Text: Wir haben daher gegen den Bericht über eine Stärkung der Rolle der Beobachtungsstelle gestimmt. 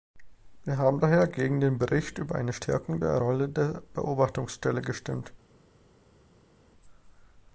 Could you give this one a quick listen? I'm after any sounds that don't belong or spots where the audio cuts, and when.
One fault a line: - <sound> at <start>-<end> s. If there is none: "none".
none